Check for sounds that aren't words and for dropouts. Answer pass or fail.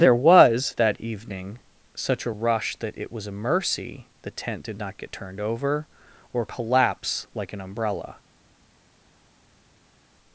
pass